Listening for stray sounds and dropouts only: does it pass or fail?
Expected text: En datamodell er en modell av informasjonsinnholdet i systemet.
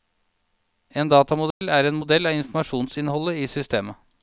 fail